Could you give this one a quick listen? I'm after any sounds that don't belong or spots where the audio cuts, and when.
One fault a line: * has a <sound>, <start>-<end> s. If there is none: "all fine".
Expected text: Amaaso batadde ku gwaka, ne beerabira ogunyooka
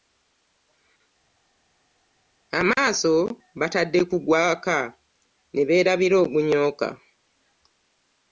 all fine